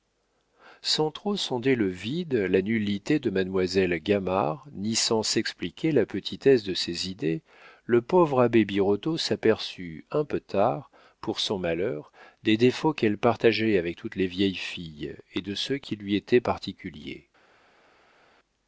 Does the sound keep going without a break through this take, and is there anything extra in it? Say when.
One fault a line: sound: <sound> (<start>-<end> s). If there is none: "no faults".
no faults